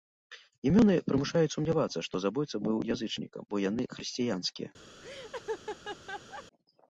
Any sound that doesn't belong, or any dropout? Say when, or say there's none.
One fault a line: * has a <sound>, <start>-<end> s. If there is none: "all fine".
* has a laugh, 5.0-6.4 s